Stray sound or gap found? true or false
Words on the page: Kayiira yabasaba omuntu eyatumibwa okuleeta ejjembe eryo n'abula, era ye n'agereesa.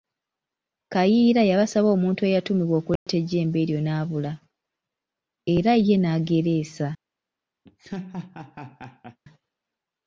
true